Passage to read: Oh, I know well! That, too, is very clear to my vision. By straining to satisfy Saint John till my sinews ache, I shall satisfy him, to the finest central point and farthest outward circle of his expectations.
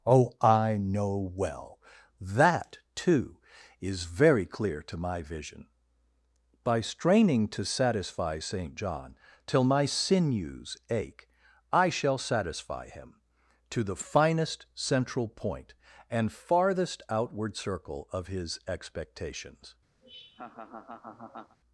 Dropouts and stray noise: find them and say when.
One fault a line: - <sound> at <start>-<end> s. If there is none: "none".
- laugh at 20.0-21.6 s